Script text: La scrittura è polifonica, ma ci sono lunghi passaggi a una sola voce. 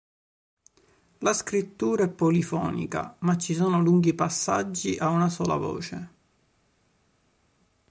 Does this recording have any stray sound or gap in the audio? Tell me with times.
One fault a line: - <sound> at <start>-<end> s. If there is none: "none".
none